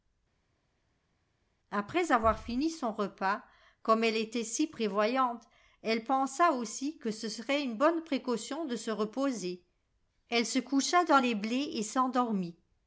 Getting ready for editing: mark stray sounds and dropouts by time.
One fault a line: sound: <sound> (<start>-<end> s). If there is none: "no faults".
no faults